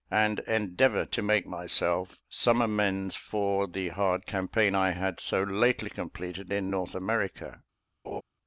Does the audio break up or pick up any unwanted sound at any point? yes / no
yes